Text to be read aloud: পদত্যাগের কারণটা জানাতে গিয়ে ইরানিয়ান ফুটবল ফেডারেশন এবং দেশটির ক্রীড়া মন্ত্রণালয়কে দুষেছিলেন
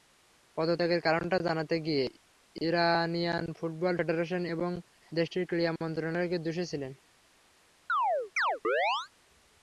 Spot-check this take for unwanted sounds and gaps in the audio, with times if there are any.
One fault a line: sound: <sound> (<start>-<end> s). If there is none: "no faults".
sound: chirp (7.9-9.1 s)